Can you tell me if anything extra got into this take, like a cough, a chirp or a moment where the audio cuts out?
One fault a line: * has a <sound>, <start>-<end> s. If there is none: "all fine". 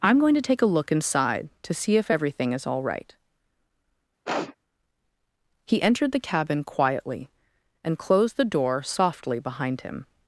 * has a sniff, 4.3-4.6 s